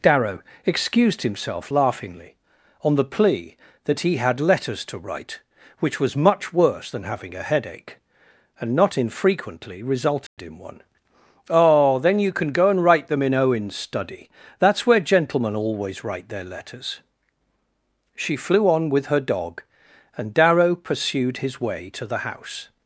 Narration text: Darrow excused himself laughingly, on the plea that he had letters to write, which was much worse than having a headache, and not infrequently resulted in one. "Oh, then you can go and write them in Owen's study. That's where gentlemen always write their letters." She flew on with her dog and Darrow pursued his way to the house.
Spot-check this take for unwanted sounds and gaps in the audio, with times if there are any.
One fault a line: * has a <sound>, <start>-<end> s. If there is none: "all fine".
* has a dropout, 10.3-10.4 s